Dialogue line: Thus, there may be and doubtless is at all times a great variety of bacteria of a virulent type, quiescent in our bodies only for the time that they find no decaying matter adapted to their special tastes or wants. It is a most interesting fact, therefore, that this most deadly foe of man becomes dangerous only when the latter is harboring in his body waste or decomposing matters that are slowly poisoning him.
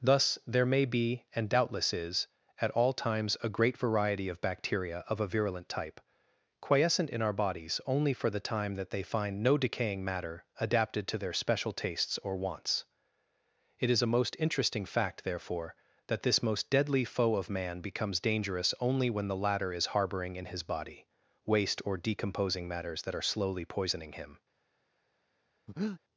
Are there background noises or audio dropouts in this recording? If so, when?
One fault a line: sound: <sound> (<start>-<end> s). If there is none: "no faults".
sound: breath (25.7-26.0 s)